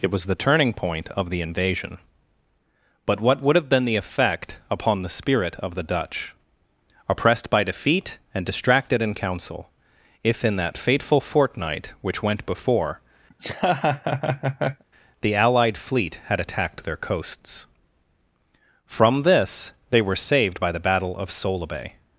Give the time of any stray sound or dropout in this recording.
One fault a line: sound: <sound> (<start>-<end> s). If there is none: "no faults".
sound: laugh (13.3-14.8 s)